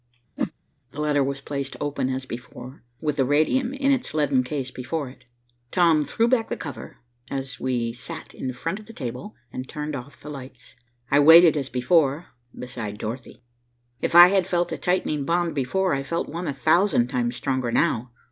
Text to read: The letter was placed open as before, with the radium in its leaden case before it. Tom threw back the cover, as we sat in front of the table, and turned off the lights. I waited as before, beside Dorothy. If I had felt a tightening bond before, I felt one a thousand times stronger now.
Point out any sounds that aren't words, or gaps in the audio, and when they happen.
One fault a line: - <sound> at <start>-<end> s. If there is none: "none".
- whoosh at 0.4-0.5 s